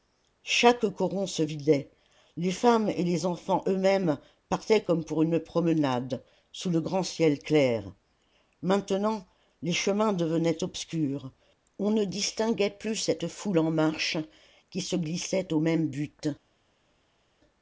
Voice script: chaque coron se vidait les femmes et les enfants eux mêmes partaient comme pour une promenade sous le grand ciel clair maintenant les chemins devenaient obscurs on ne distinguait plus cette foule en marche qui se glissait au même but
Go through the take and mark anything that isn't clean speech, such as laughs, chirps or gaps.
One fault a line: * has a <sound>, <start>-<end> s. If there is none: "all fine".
all fine